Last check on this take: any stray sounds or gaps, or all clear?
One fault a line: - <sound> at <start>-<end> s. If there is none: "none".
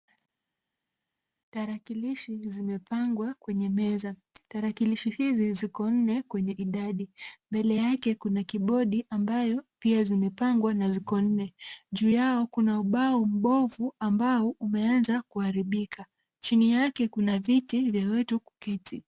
none